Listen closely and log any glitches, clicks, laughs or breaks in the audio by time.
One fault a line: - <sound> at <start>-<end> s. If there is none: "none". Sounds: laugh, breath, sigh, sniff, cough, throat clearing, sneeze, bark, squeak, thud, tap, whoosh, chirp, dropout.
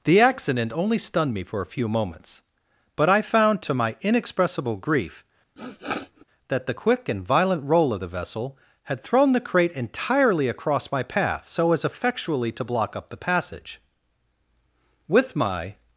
- sniff at 5.6-6.2 s